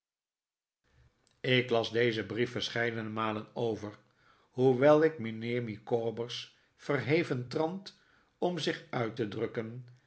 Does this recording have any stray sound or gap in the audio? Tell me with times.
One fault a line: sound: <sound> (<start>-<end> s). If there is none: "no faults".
no faults